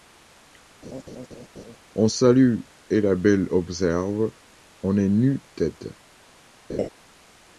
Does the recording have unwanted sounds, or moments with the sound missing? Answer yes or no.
yes